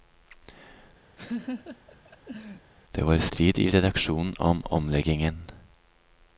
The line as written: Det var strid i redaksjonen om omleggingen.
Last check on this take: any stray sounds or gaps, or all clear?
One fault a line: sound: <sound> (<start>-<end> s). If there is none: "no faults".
sound: laugh (1.2-2.7 s)